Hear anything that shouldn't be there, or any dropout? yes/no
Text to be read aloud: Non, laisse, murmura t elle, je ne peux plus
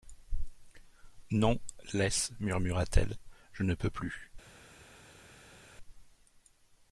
no